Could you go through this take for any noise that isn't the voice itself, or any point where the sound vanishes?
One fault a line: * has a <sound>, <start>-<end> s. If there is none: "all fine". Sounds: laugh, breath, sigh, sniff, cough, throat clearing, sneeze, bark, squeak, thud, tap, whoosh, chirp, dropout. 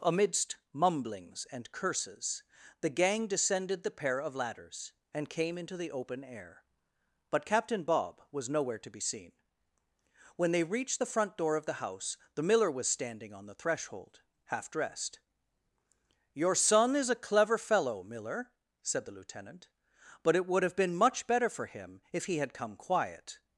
all fine